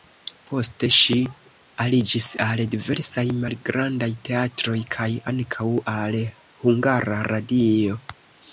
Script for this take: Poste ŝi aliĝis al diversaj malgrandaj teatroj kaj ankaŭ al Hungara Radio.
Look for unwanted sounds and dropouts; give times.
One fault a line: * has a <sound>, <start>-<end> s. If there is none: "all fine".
all fine